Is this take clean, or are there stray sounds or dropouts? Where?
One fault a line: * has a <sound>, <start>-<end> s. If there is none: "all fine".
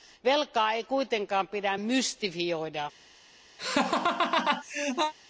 * has a laugh, 3.6-5.1 s